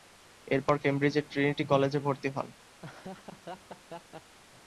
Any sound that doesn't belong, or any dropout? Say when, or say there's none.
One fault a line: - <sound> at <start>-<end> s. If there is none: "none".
- laugh at 2.8-4.4 s